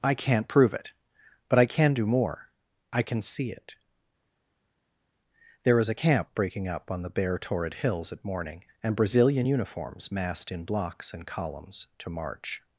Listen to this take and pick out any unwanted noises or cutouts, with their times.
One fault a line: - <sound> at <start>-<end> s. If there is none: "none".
none